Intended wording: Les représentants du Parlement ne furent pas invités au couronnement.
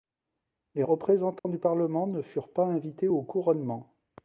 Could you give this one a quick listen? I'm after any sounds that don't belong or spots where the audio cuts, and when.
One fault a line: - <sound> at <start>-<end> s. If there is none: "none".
- dropout at 1.4-1.4 s